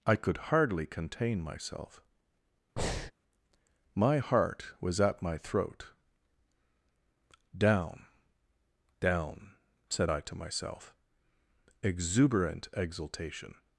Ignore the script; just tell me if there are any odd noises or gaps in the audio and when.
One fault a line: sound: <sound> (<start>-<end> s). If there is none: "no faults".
sound: breath (2.8-3.1 s)